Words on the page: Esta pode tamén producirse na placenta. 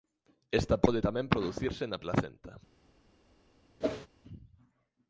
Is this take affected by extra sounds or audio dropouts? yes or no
yes